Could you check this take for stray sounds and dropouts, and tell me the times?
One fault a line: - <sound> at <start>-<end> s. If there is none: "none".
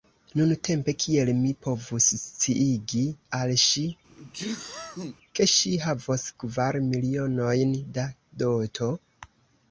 - sneeze at 4.1-5.2 s